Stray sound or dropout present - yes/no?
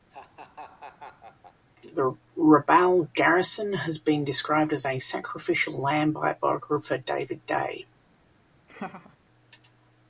yes